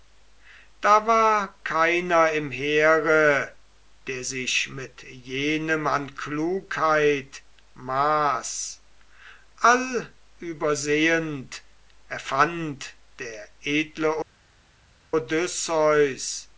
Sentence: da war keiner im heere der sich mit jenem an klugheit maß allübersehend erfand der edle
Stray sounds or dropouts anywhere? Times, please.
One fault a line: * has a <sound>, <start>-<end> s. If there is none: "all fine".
all fine